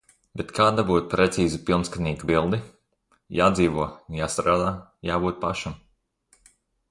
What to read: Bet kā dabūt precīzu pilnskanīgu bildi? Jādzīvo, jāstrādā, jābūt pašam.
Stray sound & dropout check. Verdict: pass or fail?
pass